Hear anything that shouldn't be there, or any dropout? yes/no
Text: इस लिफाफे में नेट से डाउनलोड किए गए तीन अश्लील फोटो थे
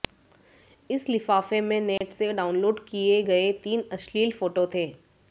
yes